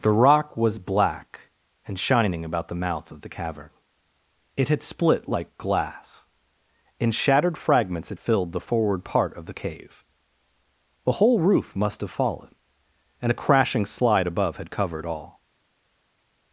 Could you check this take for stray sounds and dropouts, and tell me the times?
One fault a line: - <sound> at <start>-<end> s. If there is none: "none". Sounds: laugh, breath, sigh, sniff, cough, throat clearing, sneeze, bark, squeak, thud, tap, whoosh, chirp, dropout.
none